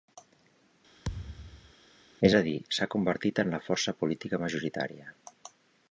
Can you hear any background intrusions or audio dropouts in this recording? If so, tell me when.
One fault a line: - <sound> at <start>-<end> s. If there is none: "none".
- thud at 1.0-1.7 s